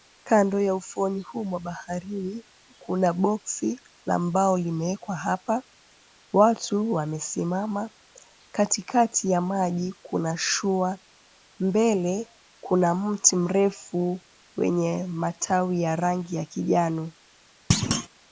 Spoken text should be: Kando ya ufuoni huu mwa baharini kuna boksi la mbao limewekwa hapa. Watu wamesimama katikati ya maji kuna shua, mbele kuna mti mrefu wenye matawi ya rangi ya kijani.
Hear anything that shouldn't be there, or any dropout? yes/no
yes